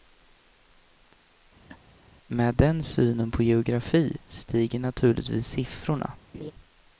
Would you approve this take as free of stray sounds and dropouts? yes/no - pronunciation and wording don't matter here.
no